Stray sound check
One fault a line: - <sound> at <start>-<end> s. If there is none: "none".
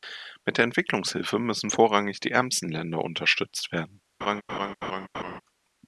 - laugh at 4.2-5.4 s